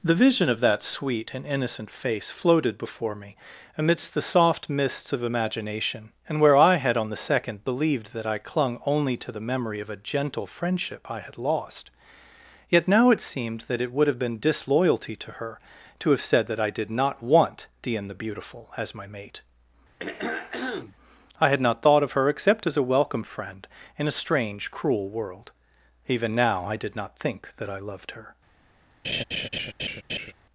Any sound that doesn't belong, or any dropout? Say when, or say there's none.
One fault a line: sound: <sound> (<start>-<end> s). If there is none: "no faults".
sound: throat clearing (20.0-21.0 s)
sound: laugh (29.0-30.3 s)